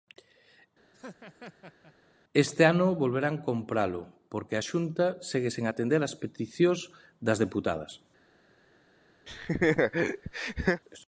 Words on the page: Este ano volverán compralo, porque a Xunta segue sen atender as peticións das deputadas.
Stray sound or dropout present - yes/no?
yes